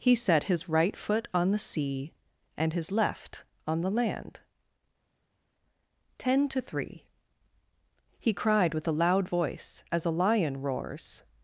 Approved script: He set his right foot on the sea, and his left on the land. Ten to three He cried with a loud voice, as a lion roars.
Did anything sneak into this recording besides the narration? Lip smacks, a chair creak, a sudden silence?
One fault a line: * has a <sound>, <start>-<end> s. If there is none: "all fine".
all fine